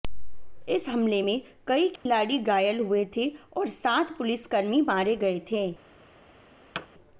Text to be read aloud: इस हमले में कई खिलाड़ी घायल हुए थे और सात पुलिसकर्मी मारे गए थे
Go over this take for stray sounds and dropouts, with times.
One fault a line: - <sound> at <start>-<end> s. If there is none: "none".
- dropout at 2.0-2.1 s
- thud at 6.7-6.9 s